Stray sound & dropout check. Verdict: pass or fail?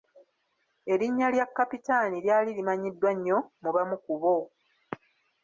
pass